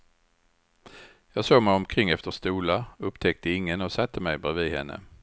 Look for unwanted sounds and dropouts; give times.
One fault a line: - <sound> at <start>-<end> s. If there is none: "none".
none